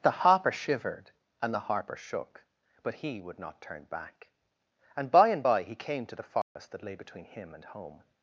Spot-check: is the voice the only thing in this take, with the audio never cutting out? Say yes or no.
no